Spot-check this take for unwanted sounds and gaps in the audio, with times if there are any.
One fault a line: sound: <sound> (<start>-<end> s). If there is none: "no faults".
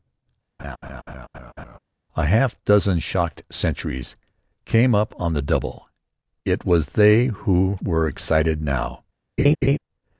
sound: laugh (0.6-1.8 s)
sound: laugh (9.4-9.8 s)